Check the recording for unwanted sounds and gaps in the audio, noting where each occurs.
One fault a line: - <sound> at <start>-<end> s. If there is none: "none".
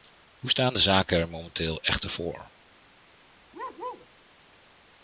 - bark at 3.5-4.1 s